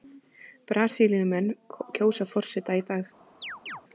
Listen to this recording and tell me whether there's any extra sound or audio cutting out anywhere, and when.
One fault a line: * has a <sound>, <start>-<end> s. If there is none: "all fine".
* has a chirp, 3.4-3.8 s